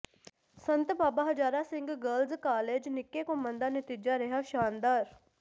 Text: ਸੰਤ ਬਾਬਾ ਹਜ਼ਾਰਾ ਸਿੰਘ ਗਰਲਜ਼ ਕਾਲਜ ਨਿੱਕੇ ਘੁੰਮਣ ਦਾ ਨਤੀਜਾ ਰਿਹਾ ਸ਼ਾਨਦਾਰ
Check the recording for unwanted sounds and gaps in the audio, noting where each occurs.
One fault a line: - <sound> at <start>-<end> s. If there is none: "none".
none